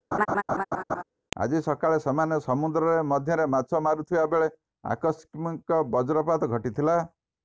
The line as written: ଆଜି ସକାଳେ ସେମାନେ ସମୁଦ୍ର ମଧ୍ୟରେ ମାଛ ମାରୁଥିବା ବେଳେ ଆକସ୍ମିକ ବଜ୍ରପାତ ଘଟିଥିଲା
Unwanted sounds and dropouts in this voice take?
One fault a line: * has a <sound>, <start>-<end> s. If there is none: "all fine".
* has a laugh, 0.1-1.0 s